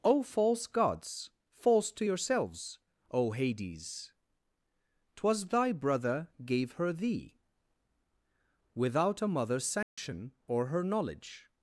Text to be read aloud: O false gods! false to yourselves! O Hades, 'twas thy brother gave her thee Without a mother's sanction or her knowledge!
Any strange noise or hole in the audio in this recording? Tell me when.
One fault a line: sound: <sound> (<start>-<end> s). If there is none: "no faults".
sound: dropout (9.8-10.0 s)